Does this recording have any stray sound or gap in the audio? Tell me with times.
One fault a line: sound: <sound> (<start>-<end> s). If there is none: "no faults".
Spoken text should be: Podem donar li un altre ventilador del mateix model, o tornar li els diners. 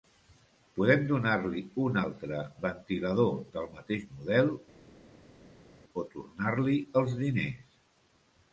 no faults